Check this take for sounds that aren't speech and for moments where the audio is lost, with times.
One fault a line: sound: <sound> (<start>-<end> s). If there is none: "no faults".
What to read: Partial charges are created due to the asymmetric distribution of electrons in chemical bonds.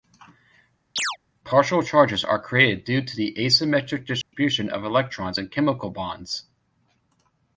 sound: chirp (1.0-1.2 s)
sound: dropout (4.2-4.3 s)